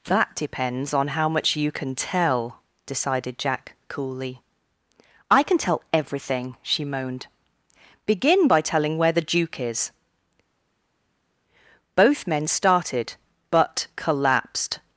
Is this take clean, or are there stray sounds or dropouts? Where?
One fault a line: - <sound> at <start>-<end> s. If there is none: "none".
none